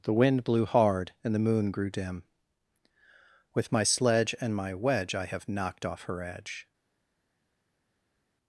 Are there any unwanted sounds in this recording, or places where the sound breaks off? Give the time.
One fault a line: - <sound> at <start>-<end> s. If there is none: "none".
none